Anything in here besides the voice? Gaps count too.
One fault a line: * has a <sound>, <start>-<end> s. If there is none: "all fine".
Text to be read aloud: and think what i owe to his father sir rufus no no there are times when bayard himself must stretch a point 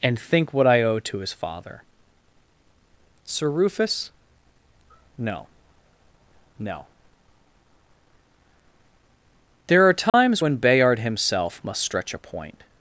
* has a dropout, 10.1-10.1 s